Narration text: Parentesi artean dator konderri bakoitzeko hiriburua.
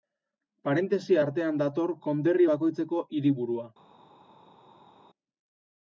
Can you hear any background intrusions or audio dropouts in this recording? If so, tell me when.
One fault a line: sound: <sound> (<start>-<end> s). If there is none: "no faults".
no faults